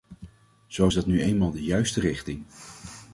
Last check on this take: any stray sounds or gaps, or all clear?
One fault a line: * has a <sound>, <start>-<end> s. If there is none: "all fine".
all fine